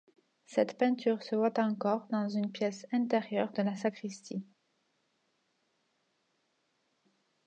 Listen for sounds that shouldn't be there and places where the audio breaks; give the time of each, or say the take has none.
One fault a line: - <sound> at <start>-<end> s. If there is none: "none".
none